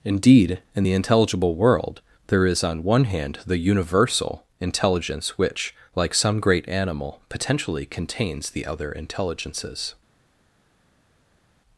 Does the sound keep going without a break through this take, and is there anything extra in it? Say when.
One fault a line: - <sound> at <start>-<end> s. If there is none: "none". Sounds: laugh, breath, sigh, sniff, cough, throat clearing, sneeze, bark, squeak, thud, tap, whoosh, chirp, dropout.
none